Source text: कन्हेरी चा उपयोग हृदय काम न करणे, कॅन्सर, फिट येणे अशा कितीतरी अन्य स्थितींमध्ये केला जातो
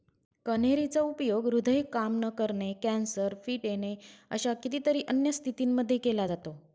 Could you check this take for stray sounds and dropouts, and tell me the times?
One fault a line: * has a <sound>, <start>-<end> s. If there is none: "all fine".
all fine